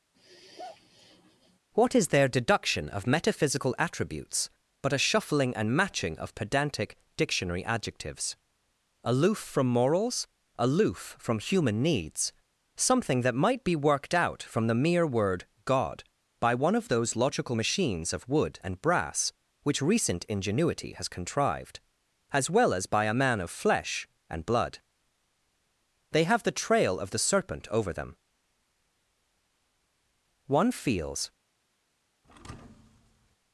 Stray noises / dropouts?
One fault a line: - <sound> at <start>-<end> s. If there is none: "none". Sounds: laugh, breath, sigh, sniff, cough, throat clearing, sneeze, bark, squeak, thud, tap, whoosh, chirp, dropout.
- sigh at 0.1-1.6 s
- thud at 32.2-33.4 s